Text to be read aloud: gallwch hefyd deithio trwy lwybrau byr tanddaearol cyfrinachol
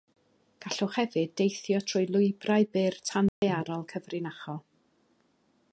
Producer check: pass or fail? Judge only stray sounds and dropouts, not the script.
fail